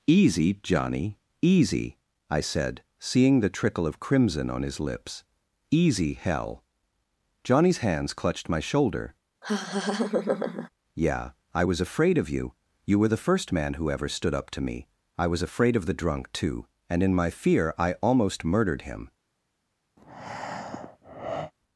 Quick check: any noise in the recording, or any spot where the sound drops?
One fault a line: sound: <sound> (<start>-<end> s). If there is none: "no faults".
sound: laugh (9.4-10.7 s)
sound: breath (20.0-21.5 s)